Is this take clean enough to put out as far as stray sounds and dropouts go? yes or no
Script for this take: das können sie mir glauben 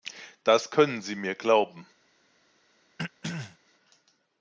no